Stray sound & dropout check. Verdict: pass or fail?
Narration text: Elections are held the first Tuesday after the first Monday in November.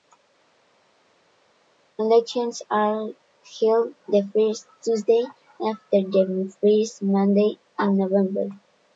pass